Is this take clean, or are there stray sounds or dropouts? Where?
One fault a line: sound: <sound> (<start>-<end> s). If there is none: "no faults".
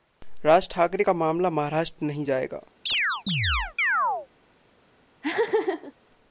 sound: chirp (2.9-4.3 s)
sound: laugh (5.2-5.9 s)